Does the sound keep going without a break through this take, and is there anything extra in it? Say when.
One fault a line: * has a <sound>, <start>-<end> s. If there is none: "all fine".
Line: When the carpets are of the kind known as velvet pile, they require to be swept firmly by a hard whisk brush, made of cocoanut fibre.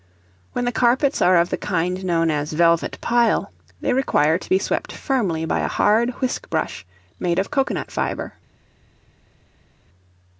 all fine